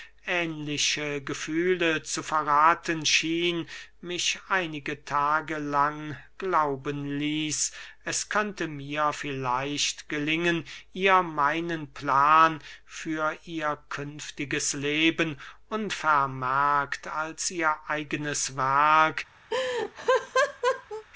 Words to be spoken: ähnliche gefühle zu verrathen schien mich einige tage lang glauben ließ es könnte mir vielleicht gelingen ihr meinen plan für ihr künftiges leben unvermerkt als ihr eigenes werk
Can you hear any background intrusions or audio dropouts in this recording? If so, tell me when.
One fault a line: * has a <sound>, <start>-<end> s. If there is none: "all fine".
* has a laugh, 19.5-21.0 s